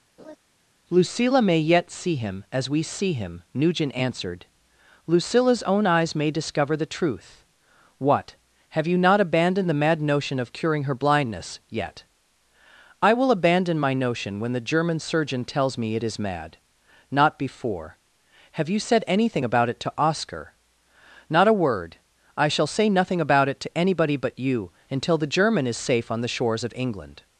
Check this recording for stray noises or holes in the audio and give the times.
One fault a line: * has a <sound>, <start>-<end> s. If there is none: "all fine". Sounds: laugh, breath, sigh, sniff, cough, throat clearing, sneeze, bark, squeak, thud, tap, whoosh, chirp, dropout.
* has a laugh, 0.2-0.4 s